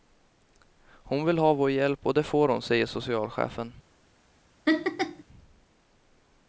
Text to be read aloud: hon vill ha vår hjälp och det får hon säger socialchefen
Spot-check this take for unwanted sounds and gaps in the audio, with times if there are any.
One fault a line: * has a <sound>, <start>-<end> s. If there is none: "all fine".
* has a laugh, 4.7-5.2 s